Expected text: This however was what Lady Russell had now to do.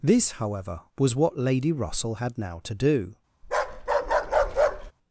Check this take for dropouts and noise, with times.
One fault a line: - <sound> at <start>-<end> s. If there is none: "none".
- bark at 3.4-4.9 s